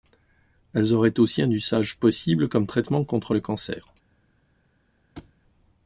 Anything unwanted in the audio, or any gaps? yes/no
yes